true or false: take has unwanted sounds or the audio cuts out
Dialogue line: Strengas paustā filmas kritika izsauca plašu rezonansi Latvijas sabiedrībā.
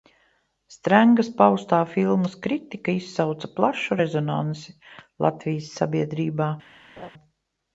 true